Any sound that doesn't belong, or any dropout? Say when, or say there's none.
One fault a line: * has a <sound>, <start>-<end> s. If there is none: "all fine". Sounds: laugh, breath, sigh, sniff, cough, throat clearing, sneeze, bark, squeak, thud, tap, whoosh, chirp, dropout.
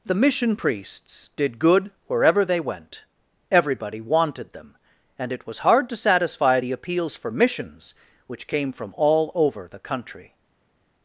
all fine